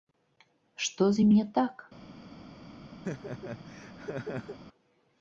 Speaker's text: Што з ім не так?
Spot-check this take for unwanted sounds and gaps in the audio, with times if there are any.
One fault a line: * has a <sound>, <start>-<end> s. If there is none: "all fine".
* has a laugh, 3.0-4.6 s